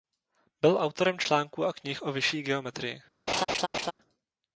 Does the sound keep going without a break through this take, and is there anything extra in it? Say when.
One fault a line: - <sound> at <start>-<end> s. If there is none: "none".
- laugh at 3.3-3.9 s